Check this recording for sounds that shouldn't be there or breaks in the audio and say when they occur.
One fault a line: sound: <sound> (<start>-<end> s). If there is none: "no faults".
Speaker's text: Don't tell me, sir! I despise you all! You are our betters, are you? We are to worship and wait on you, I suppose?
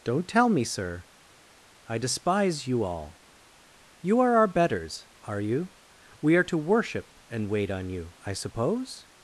no faults